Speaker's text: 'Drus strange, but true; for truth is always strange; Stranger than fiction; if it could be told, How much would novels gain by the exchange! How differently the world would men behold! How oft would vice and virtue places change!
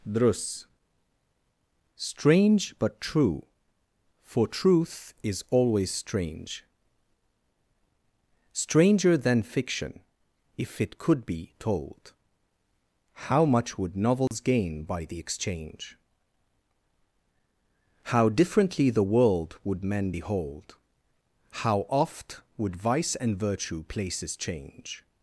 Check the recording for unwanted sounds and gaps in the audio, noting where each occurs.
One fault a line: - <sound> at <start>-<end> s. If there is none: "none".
- dropout at 14.3-14.3 s